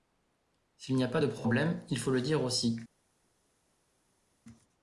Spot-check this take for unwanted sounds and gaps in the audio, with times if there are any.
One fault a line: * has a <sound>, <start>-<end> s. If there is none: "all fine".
all fine